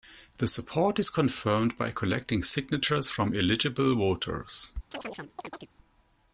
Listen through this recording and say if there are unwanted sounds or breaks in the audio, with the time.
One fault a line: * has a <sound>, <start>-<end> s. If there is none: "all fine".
* has a chirp, 4.9-5.7 s